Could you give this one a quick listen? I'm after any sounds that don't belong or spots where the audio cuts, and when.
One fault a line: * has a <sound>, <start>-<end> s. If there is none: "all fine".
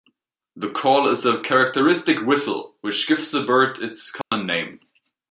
* has a dropout, 4.2-4.3 s